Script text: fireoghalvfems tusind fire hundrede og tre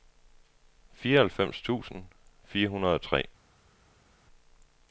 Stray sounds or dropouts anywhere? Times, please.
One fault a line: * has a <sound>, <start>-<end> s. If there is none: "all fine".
all fine